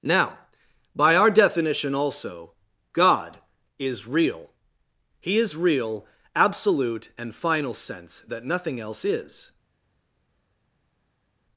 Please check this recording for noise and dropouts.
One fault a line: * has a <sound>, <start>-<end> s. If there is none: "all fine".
all fine